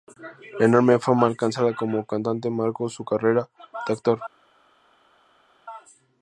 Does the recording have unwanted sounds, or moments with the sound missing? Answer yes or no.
no